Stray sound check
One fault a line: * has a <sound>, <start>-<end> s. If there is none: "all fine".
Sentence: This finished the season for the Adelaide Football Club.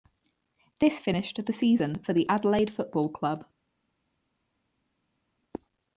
all fine